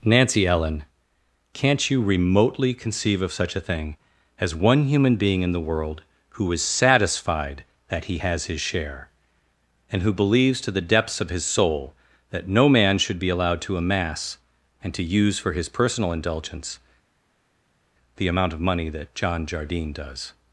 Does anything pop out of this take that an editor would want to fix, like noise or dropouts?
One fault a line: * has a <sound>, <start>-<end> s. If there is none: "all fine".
all fine